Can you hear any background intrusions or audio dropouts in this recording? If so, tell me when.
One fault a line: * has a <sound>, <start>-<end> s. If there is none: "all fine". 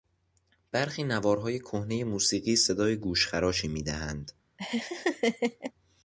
* has a laugh, 4.6-5.7 s